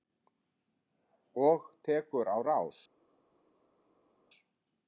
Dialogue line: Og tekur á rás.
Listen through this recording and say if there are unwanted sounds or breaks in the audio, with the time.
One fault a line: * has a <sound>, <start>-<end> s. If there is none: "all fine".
all fine